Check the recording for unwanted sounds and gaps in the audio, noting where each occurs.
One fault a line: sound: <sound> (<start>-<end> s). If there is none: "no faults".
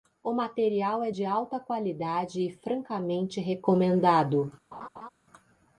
sound: laugh (4.7-5.1 s)